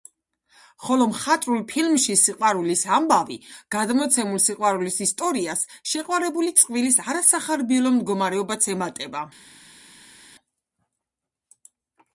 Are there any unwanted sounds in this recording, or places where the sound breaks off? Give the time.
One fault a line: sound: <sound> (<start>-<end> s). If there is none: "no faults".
no faults